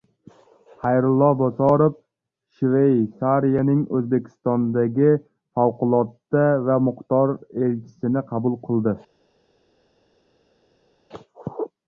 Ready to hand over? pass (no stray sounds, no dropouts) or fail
pass